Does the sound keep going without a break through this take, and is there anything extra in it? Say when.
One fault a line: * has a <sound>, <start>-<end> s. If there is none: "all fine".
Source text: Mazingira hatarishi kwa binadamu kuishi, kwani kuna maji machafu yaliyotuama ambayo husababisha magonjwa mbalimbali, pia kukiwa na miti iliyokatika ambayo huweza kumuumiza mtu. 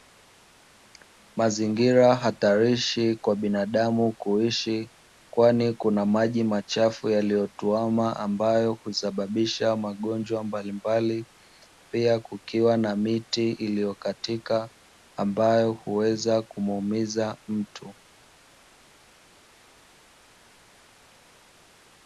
all fine